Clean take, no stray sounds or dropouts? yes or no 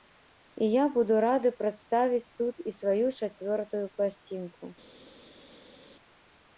yes